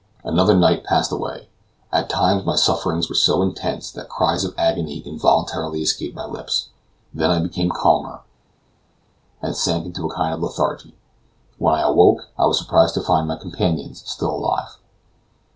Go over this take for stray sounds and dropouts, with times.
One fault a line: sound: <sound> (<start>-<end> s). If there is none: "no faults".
no faults